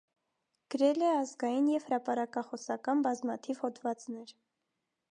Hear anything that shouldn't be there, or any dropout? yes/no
no